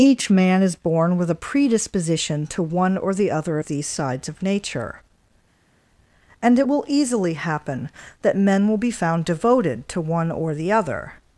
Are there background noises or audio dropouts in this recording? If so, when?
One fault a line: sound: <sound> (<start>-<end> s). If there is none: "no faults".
no faults